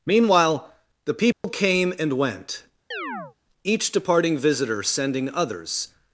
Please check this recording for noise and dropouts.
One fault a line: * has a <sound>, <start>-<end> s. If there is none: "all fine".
* has a dropout, 1.3-1.4 s
* has a chirp, 2.9-3.4 s